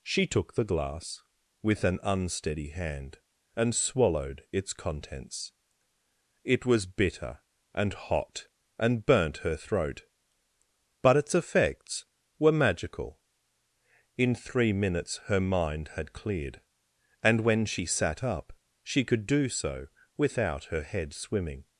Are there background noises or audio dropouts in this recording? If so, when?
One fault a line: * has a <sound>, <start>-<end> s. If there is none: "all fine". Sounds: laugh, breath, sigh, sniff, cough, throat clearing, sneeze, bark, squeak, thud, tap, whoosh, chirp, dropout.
all fine